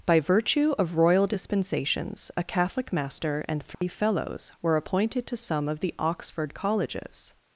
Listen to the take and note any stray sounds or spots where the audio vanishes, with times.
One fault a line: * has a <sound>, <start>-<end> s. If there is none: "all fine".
* has a dropout, 3.7-3.8 s